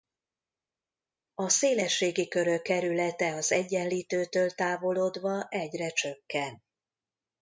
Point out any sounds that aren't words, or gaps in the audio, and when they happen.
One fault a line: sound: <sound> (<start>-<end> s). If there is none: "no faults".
no faults